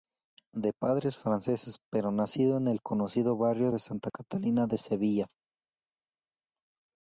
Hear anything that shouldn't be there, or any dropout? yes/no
no